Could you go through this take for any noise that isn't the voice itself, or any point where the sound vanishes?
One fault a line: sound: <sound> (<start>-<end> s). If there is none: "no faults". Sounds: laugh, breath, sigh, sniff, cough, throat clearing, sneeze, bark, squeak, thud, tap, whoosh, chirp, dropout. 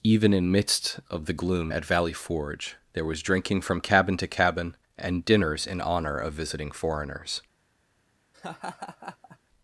sound: laugh (8.3-9.4 s)